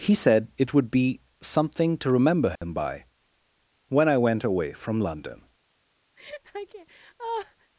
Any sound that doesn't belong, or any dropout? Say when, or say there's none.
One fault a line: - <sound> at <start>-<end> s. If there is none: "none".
- dropout at 2.6-2.6 s
- laugh at 6.2-7.7 s